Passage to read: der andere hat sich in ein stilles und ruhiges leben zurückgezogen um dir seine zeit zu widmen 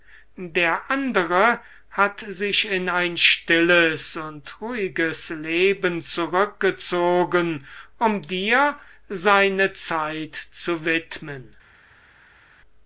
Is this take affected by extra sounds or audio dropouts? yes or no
no